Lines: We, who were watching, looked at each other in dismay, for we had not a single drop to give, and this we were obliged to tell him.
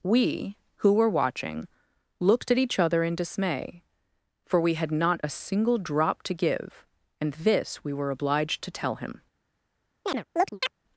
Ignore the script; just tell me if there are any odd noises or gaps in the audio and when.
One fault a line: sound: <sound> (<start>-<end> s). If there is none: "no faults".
sound: chirp (10.1-10.7 s)